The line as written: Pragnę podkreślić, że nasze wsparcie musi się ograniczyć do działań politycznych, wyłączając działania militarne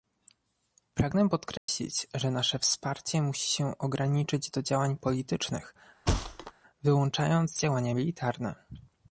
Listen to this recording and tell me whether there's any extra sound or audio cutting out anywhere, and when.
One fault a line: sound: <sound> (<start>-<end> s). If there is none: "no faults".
sound: dropout (1.6-1.7 s)
sound: thud (6.1-6.5 s)